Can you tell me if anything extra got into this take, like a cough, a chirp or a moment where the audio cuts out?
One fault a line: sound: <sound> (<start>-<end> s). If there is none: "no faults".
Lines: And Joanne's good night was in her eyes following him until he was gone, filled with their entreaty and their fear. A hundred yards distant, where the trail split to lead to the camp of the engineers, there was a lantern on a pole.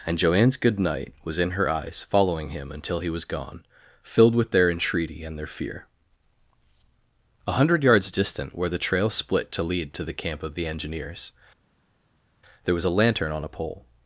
no faults